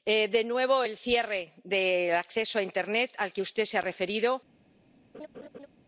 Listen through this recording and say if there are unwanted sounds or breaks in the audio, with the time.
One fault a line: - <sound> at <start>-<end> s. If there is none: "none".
- laugh at 5.1-5.7 s